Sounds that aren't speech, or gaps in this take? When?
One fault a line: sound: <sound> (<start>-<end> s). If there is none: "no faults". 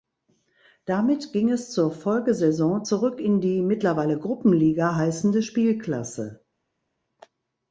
no faults